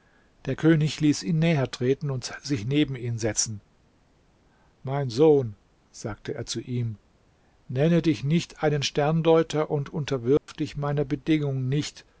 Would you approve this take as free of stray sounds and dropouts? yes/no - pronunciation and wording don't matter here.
no